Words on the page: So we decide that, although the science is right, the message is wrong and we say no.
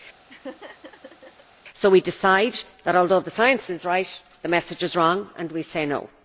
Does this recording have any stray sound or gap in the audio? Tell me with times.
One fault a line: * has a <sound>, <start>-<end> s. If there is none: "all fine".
* has a laugh, 0.3-1.4 s